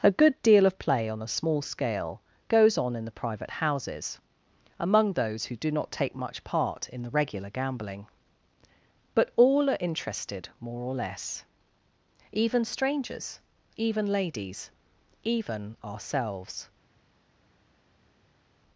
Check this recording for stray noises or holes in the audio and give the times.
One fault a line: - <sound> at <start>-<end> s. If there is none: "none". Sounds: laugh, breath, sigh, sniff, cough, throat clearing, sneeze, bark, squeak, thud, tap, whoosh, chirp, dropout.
none